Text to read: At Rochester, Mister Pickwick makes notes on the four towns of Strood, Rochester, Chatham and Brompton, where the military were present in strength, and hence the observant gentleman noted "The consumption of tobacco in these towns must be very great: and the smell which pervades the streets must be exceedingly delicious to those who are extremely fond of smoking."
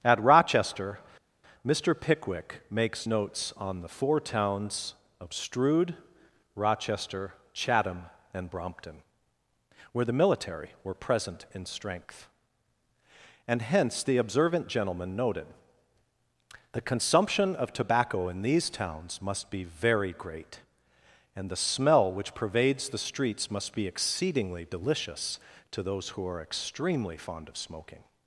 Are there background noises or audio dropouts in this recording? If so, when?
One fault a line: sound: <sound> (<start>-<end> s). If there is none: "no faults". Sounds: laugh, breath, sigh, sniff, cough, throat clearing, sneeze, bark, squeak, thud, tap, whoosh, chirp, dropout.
no faults